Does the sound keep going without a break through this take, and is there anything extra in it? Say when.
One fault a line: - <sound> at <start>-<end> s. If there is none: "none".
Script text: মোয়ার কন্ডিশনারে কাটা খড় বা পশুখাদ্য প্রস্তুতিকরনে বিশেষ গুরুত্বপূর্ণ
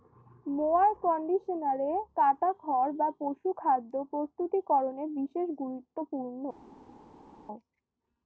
none